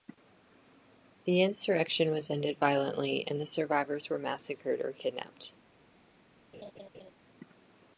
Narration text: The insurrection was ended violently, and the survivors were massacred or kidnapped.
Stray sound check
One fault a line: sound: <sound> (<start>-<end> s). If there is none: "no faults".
sound: laugh (6.5-7.1 s)